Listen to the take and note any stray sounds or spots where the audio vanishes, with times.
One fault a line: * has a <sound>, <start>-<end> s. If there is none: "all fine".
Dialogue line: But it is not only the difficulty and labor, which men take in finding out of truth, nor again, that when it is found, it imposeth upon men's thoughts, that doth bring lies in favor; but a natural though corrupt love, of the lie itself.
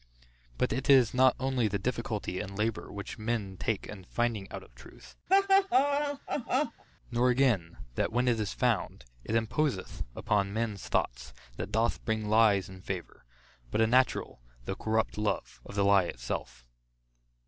* has a laugh, 5.3-6.8 s